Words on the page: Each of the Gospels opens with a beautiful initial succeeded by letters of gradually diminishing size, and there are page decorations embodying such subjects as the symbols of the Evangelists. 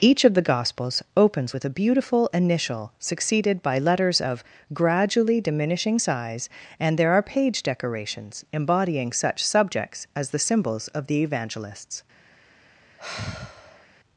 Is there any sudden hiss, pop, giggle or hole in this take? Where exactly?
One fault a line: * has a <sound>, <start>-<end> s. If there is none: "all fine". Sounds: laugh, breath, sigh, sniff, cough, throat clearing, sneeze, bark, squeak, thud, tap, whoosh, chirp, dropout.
* has a sigh, 13.0-13.9 s